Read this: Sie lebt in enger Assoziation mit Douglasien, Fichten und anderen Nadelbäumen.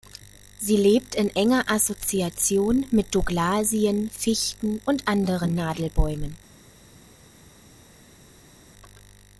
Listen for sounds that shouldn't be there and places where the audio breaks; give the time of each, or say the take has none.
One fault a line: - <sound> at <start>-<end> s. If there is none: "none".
none